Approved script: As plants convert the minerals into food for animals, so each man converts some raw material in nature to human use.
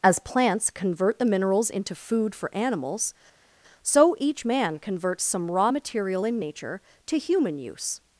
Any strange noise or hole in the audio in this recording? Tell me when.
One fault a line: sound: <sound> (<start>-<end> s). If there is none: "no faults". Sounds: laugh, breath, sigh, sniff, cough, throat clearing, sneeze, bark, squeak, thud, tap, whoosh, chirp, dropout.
no faults